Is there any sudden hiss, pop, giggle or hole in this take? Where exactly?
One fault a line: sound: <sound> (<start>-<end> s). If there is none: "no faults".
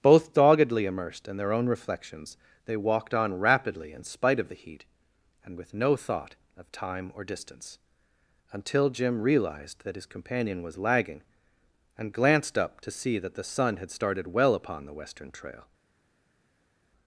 no faults